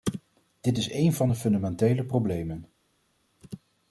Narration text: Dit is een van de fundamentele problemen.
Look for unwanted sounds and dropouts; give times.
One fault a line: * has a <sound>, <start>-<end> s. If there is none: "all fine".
all fine